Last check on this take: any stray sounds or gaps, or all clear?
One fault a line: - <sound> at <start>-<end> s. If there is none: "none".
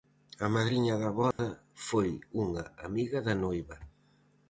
- dropout at 1.3-1.4 s